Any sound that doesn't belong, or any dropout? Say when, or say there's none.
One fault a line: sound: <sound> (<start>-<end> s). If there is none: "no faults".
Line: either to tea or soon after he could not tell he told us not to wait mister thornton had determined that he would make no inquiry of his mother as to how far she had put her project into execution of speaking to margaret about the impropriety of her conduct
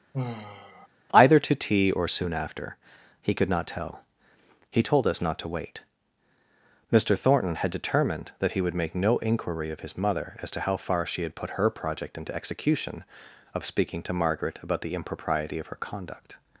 sound: sigh (0.1-0.9 s)